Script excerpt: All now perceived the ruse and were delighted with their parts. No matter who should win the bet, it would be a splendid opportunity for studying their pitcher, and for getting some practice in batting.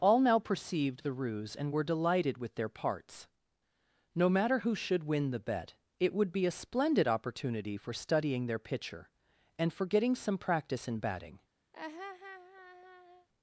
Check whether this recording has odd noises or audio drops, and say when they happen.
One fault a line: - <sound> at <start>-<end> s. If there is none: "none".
- laugh at 11.7-13.3 s